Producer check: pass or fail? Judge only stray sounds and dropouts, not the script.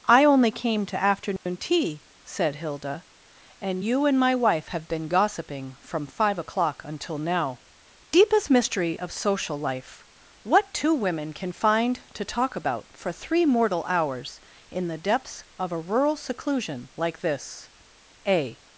fail